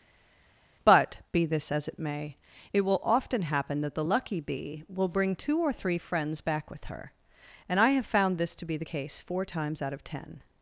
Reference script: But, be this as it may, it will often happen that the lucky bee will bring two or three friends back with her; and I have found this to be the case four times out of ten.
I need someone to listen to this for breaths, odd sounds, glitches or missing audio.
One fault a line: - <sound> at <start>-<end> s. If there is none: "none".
none